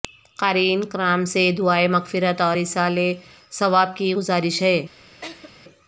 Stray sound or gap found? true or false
true